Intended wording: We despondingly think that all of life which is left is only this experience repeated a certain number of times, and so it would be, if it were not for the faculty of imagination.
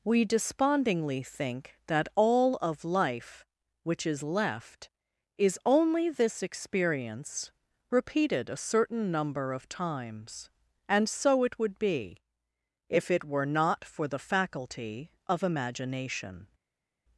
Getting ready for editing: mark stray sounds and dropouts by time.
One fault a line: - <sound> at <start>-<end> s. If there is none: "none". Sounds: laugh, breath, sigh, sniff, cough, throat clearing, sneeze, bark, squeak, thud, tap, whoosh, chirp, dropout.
none